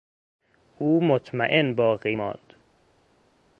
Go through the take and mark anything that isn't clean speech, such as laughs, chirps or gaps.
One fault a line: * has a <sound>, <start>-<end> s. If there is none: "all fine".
all fine